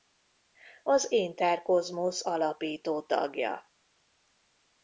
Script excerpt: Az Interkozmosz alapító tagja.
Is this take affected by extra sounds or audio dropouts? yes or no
no